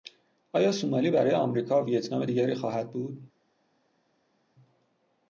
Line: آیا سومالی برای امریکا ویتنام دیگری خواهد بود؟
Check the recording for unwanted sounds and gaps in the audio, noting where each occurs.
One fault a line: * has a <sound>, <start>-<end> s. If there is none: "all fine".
all fine